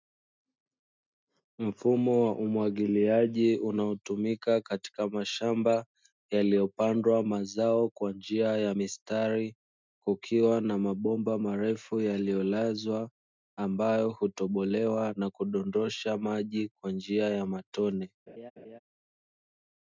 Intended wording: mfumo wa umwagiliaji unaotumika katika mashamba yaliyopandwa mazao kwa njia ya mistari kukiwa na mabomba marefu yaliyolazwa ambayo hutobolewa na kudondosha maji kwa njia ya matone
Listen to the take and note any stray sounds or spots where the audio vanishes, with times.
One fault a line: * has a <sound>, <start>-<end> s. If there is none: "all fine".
* has a laugh, 18.3-18.8 s